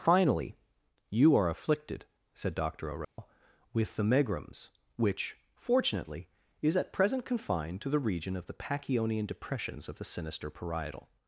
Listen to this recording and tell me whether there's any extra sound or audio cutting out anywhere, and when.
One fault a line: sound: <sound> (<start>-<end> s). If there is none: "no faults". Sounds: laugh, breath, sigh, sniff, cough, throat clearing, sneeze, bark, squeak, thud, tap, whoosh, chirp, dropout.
sound: dropout (3.0-3.2 s)